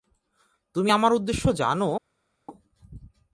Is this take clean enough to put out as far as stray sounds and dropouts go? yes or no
yes